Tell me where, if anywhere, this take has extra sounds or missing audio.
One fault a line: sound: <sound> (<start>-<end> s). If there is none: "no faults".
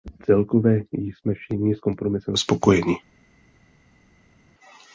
no faults